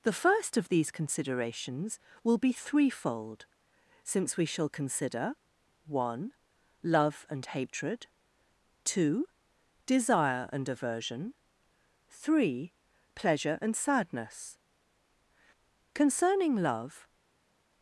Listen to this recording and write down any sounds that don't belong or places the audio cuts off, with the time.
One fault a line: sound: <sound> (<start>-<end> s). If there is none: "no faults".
no faults